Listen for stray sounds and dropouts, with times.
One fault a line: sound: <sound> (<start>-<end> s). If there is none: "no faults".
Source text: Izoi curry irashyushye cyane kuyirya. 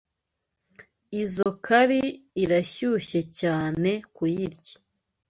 sound: dropout (1.4-1.5 s)